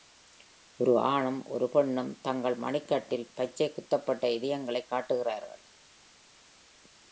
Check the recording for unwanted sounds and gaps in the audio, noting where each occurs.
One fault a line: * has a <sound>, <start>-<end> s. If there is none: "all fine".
all fine